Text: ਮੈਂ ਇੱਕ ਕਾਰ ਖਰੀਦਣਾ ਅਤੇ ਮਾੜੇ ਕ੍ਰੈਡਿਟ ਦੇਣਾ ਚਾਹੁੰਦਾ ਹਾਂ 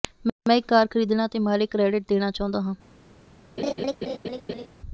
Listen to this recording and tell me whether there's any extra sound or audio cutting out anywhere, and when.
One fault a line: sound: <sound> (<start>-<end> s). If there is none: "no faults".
sound: laugh (3.6-4.7 s)